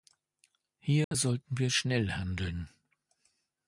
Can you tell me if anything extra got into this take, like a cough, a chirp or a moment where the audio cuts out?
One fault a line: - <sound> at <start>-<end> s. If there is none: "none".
- dropout at 1.0-1.1 s